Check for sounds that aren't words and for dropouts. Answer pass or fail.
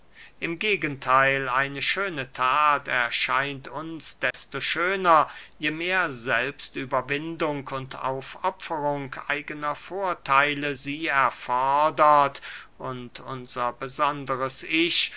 fail